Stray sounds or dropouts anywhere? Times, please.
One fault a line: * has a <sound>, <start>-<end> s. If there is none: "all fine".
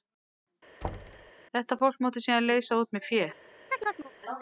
* has a thud, 0.8-1.3 s
* has a chirp, 3.7-4.1 s